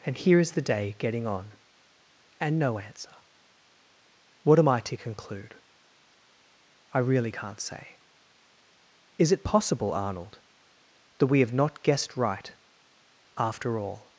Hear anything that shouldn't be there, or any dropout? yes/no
no